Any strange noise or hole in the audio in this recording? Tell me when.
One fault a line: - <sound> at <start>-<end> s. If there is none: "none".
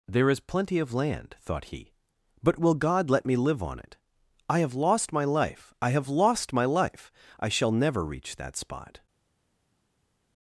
none